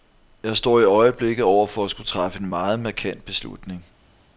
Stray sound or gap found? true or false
false